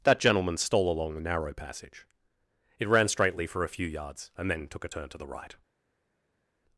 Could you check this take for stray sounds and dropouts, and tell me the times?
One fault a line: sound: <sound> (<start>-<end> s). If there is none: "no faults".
no faults